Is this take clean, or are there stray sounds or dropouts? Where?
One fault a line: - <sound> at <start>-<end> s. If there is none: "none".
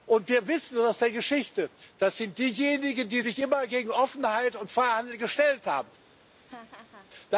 - laugh at 6.3-7.1 s